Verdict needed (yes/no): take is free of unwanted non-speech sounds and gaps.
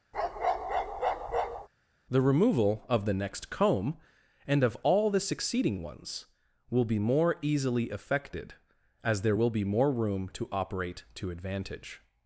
no